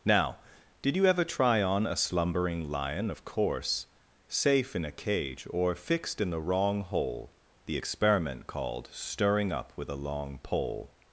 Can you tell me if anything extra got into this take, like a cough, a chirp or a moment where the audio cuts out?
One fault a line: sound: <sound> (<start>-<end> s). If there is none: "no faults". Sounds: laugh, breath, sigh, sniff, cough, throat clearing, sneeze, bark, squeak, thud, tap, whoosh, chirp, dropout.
no faults